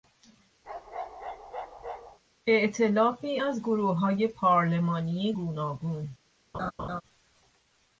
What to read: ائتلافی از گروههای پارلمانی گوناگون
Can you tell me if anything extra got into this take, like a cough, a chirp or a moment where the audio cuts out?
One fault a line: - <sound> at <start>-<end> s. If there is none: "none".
- bark at 0.6-2.2 s
- laugh at 6.5-7.0 s